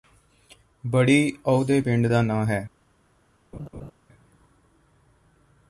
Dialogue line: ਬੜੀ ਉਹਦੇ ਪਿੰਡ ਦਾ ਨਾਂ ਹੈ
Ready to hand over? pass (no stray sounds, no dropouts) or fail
fail